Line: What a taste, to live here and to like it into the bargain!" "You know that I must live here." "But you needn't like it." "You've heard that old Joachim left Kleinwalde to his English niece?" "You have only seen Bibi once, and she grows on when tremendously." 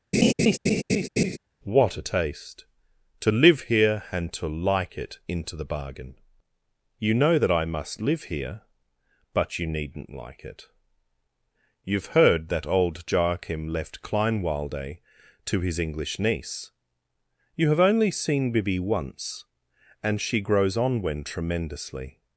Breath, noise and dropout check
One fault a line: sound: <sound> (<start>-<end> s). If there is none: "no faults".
sound: laugh (0.1-1.4 s)